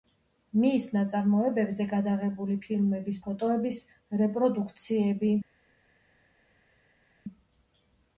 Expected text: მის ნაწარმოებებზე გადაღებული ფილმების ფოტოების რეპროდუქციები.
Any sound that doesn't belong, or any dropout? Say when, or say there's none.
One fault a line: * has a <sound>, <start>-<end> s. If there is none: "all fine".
all fine